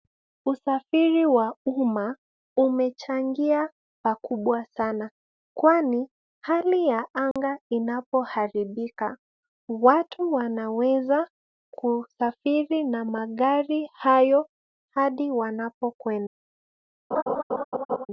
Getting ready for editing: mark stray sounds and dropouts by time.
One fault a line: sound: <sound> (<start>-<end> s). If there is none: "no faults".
sound: dropout (7.3-7.4 s)
sound: laugh (17.1-18.1 s)